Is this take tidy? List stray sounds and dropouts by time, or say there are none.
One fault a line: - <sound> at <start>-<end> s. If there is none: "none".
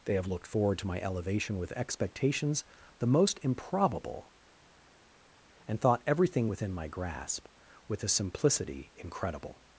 none